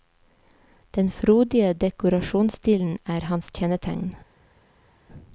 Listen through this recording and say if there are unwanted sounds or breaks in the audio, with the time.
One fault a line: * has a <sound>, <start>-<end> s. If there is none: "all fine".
all fine